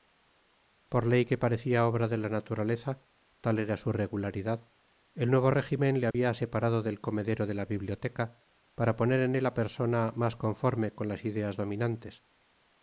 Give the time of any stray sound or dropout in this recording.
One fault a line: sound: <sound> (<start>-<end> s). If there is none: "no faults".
sound: dropout (6.1-6.1 s)